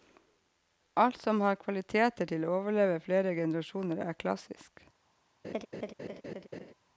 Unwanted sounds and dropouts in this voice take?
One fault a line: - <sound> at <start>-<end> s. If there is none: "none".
- laugh at 5.4-6.7 s